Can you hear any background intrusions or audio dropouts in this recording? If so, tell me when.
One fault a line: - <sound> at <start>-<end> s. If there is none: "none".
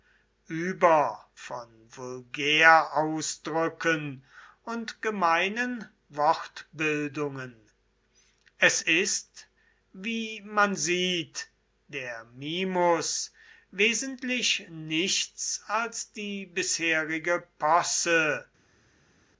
none